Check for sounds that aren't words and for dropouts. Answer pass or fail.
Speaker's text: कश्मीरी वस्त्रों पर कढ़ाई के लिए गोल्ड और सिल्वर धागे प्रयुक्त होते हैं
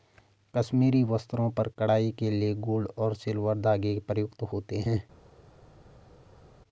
pass